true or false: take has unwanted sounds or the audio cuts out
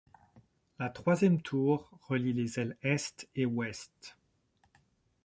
false